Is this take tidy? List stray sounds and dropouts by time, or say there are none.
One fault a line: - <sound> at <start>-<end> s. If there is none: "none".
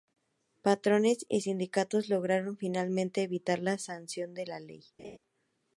- laugh at 5.0-5.2 s